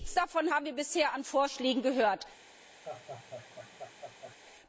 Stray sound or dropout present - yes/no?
yes